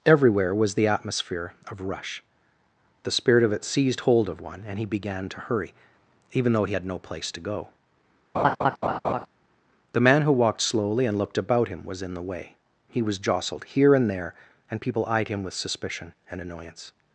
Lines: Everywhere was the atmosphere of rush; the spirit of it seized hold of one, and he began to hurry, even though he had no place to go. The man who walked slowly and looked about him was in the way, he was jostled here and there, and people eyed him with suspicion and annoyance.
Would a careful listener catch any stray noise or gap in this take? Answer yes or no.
yes